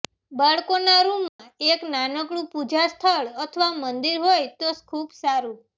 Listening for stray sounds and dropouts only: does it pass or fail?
fail